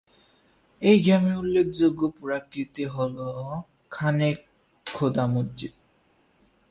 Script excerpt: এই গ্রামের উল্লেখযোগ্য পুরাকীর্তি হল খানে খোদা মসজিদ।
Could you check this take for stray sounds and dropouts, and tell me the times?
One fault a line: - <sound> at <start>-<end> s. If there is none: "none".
none